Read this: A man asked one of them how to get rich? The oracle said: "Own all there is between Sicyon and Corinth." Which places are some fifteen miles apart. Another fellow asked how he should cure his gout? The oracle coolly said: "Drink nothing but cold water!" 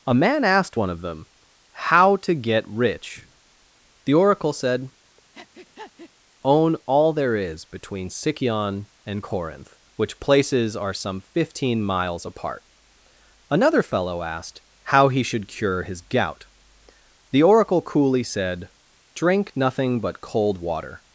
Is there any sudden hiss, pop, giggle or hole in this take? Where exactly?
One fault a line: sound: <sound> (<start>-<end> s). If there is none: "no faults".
sound: breath (5.3-6.1 s)